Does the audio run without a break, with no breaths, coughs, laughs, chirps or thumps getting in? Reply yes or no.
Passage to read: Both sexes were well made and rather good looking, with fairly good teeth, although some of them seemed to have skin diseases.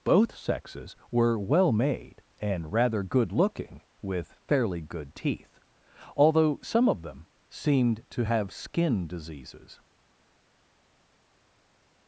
yes